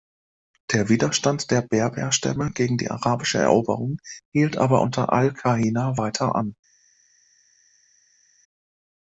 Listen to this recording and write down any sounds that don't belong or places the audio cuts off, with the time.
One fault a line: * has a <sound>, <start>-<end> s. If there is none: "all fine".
all fine